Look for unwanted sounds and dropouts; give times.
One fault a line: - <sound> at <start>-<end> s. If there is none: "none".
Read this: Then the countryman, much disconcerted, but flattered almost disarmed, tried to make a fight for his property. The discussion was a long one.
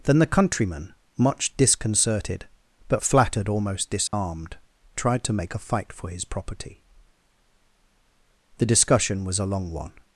- dropout at 4.1-4.1 s